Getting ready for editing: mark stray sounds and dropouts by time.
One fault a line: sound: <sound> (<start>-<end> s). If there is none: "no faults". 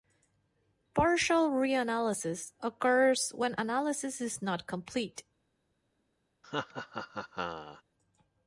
sound: laugh (6.4-7.8 s)